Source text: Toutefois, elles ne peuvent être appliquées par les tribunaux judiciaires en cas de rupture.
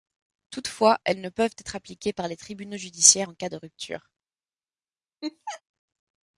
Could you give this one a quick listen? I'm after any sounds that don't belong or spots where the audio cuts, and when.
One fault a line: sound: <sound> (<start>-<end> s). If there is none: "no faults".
sound: laugh (5.2-5.6 s)